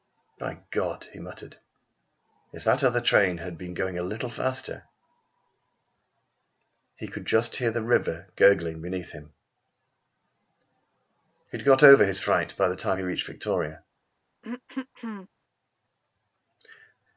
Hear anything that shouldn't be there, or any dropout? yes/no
yes